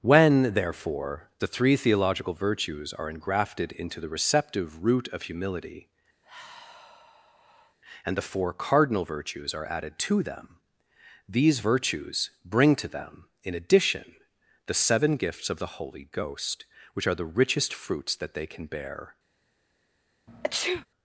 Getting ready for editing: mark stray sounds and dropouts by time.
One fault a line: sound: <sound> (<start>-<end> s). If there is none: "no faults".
sound: sigh (6.2-7.8 s)
sound: sneeze (20.3-20.9 s)